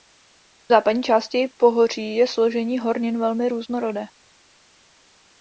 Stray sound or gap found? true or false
false